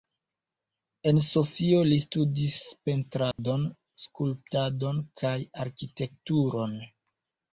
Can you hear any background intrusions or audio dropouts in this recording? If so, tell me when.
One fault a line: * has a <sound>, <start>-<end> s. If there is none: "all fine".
* has a dropout, 3.3-3.4 s